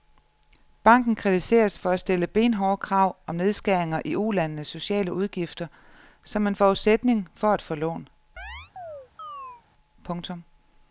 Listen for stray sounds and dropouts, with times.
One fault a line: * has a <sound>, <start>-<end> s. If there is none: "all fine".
* has a chirp, 8.4-9.6 s